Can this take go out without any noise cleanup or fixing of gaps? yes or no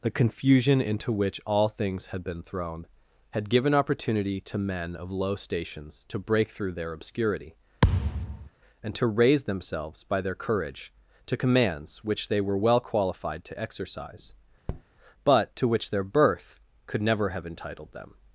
no